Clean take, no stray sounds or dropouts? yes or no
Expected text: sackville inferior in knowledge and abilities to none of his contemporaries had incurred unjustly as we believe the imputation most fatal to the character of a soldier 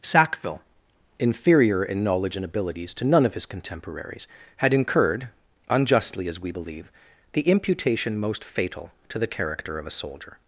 yes